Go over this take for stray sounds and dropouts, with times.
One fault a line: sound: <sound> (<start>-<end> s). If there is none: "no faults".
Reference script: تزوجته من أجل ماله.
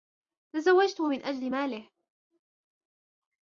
no faults